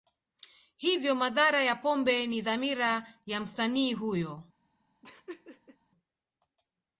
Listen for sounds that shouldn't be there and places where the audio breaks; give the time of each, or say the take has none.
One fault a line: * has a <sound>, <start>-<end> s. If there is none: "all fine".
* has a laugh, 5.0-5.8 s